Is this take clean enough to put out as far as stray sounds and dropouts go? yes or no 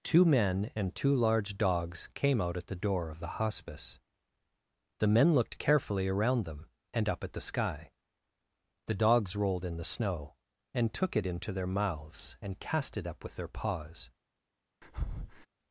no